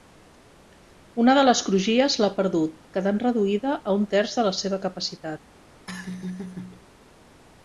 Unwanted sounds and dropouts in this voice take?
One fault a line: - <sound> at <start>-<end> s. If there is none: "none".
- laugh at 5.9-6.9 s